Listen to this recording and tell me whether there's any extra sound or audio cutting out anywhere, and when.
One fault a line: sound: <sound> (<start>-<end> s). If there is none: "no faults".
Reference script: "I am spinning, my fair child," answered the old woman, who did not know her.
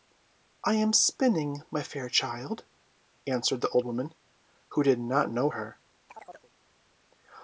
sound: chirp (6.1-6.5 s)